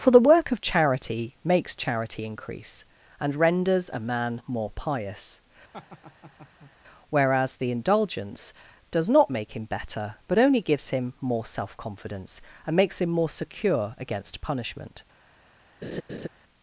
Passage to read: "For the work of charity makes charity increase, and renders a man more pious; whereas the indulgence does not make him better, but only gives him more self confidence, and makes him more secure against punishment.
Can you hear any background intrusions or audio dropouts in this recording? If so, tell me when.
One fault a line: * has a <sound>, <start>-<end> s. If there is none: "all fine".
* has a laugh, 5.7-6.7 s
* has a laugh, 15.8-16.3 s